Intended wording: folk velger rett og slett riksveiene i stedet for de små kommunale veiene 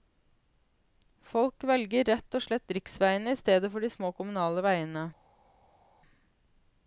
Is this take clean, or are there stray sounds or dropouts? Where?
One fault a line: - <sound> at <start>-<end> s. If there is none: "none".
none